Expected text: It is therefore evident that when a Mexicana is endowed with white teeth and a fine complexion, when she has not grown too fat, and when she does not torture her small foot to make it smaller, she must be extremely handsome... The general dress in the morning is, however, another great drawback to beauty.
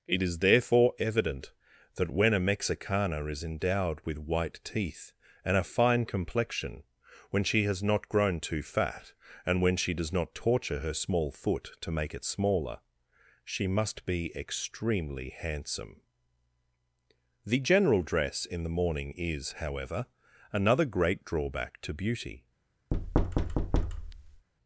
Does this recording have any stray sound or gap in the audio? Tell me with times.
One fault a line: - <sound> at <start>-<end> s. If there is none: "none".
- thud at 22.9-24.5 s